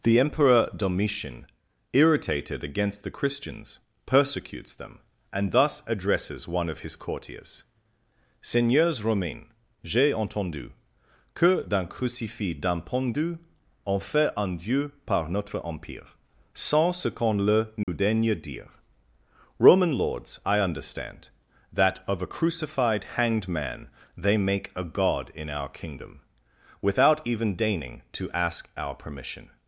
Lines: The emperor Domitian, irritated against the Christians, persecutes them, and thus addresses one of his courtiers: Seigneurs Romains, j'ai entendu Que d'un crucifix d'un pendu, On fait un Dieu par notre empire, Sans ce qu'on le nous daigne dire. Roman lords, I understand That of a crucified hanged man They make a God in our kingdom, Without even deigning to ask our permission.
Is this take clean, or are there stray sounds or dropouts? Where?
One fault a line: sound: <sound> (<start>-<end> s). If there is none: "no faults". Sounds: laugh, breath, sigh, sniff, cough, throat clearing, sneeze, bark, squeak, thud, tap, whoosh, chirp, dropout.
sound: dropout (17.8-17.9 s)